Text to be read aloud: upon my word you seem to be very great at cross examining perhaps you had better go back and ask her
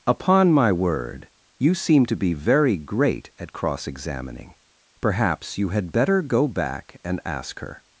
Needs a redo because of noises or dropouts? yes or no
no